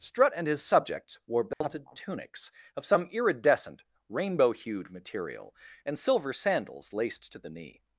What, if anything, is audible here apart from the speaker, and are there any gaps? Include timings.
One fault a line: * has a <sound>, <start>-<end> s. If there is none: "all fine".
* has a dropout, 1.5-1.6 s